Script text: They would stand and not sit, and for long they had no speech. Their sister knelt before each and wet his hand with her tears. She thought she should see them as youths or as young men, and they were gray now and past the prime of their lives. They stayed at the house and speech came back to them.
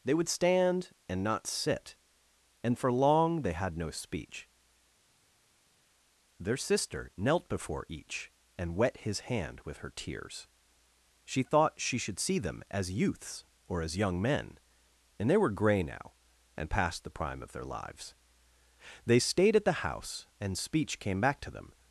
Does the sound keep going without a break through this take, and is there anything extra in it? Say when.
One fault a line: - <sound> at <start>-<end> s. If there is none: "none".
none